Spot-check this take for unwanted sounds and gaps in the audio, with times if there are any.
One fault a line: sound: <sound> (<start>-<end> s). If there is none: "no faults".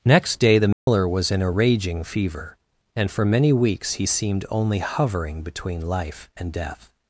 sound: dropout (0.7-0.9 s)